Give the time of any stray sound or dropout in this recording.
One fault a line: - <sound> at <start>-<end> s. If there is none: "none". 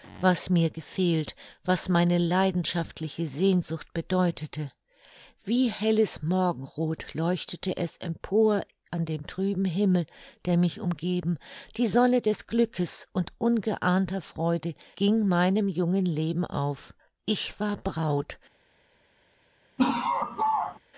- laugh at 19.8-20.8 s